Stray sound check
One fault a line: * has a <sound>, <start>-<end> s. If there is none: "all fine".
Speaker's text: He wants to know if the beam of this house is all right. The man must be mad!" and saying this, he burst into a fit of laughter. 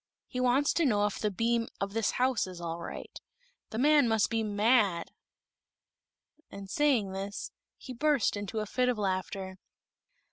all fine